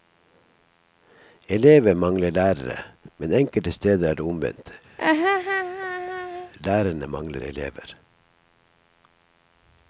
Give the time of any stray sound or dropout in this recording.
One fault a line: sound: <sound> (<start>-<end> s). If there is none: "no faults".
sound: laugh (5.0-6.5 s)